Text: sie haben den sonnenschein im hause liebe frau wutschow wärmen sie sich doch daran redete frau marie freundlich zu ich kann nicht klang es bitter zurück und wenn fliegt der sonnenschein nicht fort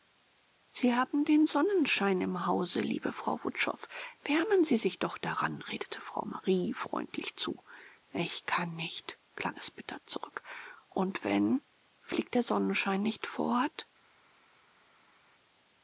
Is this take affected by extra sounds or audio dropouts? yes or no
no